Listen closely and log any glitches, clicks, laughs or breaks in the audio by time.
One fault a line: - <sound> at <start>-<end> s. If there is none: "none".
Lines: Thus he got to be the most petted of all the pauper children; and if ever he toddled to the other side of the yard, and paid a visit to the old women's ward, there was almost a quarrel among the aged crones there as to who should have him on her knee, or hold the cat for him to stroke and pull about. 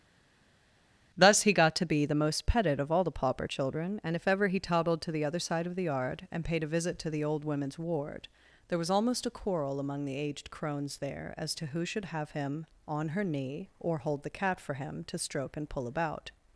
none